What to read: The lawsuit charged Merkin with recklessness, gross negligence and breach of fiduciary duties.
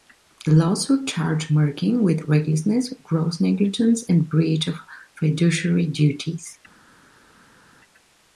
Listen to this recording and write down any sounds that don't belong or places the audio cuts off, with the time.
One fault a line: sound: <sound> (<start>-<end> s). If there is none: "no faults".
no faults